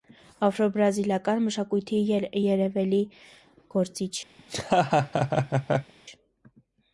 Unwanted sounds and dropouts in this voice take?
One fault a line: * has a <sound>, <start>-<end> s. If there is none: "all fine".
* has a laugh, 4.4-5.9 s